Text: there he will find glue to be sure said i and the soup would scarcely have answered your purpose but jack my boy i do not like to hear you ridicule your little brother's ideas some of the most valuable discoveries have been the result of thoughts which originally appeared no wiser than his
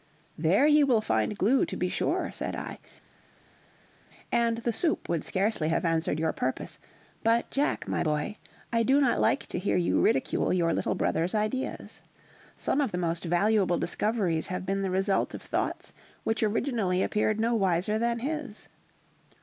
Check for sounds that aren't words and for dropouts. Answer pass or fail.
pass